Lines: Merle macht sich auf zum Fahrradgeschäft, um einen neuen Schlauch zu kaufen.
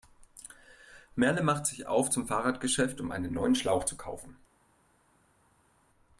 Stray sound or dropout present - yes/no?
no